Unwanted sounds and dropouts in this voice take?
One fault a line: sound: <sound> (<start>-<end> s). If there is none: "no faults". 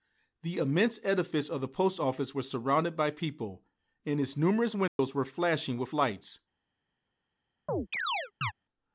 sound: dropout (4.9-5.0 s)
sound: chirp (7.7-8.5 s)